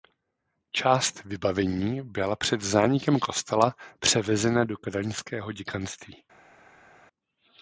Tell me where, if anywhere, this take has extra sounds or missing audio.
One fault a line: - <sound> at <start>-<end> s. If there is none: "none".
none